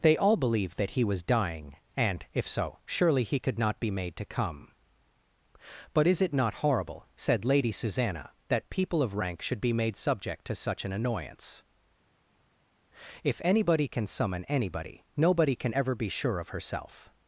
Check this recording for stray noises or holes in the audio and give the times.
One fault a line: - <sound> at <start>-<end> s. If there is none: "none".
none